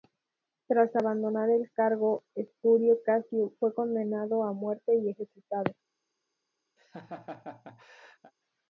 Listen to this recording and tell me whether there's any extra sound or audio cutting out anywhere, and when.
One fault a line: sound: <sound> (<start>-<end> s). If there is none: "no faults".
sound: laugh (6.8-8.3 s)